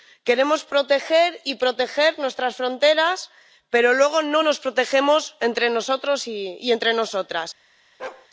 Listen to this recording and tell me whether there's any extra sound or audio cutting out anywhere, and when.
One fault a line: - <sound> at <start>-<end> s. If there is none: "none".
- bark at 8.0-8.3 s